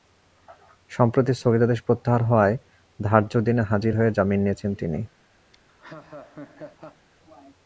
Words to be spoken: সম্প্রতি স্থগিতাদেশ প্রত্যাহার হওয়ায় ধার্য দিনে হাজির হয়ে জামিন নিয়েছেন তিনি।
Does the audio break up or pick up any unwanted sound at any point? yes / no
yes